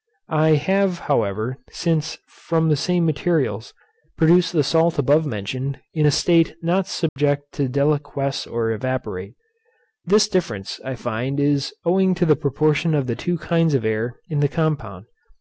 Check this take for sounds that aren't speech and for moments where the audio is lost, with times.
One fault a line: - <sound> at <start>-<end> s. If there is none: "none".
- dropout at 7.1-7.2 s